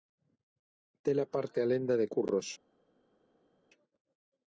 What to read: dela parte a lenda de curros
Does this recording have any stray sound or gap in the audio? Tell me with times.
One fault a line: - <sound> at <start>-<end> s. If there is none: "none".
none